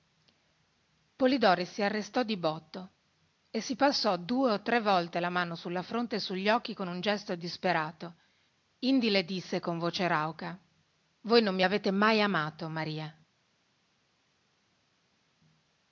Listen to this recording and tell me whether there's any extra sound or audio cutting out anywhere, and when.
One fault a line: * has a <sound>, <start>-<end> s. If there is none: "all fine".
all fine